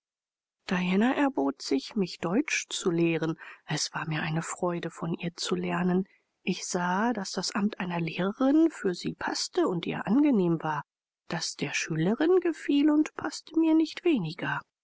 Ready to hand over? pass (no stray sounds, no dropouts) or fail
pass